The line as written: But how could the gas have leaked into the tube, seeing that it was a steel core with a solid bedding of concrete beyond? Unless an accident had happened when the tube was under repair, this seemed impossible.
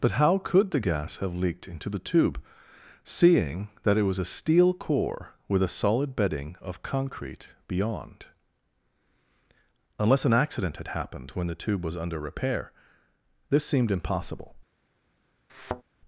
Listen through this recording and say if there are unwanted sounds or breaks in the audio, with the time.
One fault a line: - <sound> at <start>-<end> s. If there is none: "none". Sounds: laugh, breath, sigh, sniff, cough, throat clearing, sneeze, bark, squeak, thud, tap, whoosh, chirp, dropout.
- thud at 15.5-15.8 s